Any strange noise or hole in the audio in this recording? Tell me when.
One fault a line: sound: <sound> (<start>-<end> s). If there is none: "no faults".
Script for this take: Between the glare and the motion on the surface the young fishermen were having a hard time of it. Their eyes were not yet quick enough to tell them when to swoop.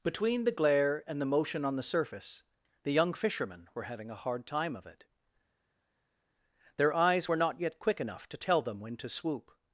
no faults